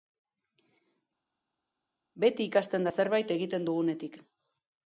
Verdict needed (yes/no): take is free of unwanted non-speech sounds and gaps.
yes